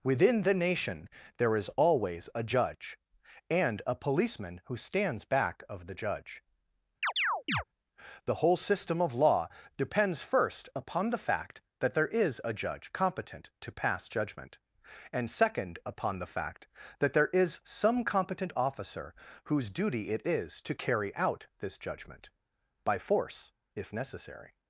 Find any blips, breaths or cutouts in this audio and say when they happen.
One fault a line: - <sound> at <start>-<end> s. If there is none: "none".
- chirp at 7.0-7.6 s